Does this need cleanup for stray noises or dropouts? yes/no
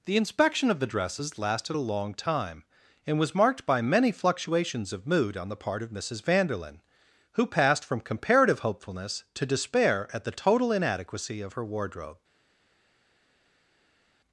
no